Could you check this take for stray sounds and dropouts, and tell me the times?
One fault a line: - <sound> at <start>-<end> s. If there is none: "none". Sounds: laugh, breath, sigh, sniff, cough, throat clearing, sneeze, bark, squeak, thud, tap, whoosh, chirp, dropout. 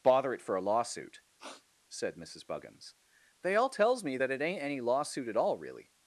- sniff at 1.4-1.7 s